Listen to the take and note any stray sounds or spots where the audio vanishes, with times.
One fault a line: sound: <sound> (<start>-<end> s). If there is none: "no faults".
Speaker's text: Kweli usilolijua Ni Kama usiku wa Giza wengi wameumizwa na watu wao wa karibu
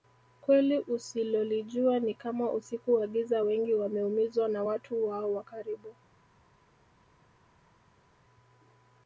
no faults